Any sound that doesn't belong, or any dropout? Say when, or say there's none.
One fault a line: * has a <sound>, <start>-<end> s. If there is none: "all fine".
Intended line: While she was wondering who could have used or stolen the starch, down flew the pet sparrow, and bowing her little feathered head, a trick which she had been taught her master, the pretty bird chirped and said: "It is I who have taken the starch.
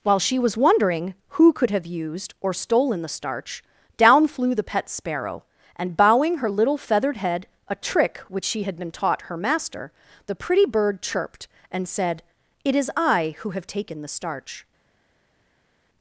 all fine